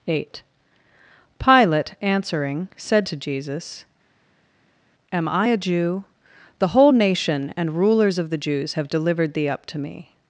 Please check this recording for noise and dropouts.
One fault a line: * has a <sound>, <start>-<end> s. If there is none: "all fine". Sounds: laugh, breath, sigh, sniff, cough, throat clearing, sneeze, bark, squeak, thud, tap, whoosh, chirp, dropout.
all fine